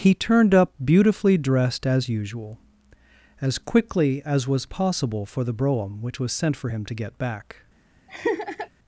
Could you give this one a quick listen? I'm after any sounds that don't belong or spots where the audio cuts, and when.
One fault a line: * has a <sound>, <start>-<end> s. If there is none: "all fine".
* has a laugh, 8.1-8.7 s